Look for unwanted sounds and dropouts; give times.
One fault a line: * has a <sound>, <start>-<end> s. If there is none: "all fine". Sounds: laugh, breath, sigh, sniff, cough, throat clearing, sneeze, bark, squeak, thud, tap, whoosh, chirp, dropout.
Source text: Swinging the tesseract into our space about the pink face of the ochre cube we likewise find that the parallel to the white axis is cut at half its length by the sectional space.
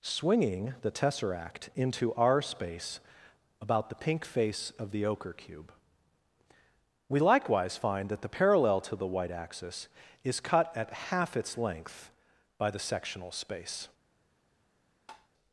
* has a tap, 15.1-15.3 s